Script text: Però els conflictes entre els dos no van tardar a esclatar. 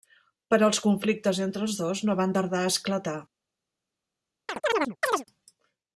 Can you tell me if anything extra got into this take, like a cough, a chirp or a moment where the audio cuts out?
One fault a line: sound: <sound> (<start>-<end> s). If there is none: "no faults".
sound: chirp (4.5-5.2 s)